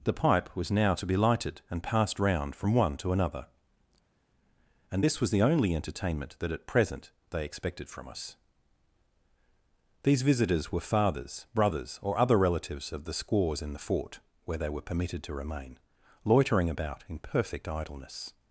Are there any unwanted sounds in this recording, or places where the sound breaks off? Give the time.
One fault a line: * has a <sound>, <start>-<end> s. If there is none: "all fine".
all fine